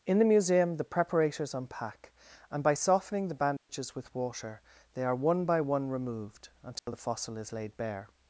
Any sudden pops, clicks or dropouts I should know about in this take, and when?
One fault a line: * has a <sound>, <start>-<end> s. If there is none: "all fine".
* has a dropout, 3.6-3.7 s
* has a dropout, 6.8-6.9 s